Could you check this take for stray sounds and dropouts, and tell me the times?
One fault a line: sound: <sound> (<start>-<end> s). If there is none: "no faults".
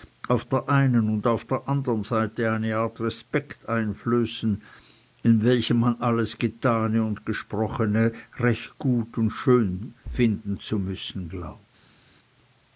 no faults